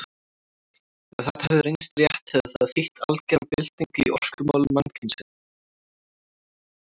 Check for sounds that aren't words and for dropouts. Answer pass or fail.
pass